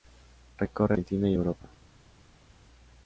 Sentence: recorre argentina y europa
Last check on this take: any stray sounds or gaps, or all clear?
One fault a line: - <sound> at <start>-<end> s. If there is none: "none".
none